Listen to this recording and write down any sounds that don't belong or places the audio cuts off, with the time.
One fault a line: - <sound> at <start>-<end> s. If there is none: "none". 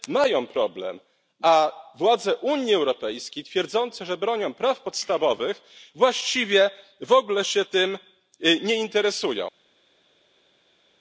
none